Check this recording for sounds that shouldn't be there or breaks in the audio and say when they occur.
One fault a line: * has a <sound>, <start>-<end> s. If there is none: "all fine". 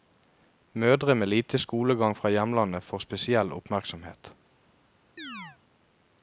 * has a chirp, 5.2-5.6 s